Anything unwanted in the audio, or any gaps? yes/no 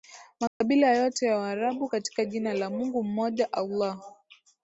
yes